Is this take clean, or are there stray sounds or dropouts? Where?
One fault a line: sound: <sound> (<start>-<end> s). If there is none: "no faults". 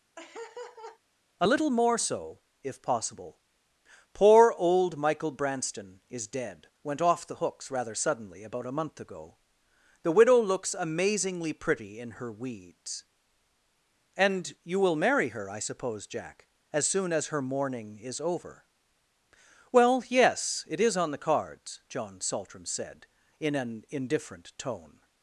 sound: laugh (0.2-1.0 s)